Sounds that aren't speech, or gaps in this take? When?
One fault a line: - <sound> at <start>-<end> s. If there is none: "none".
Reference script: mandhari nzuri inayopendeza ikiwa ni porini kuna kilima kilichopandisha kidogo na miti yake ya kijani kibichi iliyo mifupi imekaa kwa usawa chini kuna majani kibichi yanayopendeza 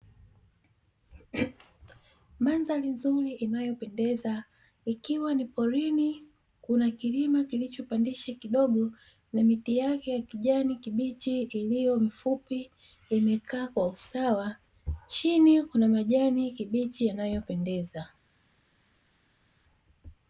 none